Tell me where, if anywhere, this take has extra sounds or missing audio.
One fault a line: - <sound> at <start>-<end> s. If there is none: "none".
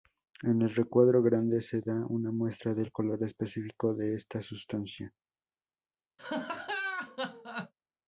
- laugh at 6.2-7.7 s